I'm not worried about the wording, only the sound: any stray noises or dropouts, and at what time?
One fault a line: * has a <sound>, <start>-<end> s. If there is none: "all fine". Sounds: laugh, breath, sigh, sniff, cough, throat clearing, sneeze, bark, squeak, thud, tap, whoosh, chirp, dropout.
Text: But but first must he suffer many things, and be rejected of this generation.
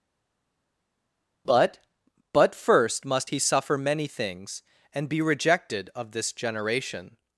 all fine